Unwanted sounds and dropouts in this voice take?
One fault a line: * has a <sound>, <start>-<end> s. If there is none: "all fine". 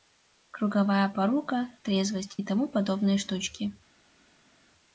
all fine